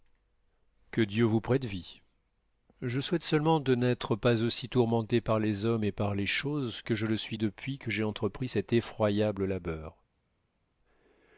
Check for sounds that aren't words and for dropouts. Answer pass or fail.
pass